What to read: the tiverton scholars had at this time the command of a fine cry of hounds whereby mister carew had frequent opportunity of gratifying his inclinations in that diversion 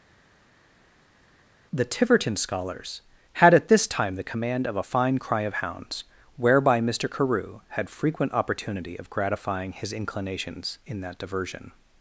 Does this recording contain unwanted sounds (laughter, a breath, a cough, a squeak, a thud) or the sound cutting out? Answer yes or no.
no